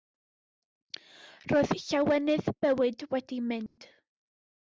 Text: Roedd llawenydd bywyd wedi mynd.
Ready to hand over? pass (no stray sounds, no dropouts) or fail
fail